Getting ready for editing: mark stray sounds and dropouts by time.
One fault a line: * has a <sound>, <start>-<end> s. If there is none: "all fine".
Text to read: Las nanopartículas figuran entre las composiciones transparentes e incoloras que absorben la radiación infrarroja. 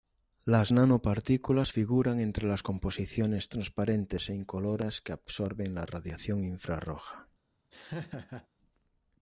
* has a laugh, 7.7-8.5 s